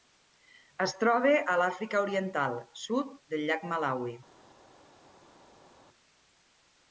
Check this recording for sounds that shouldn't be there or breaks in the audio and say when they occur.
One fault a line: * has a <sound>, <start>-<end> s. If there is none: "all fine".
all fine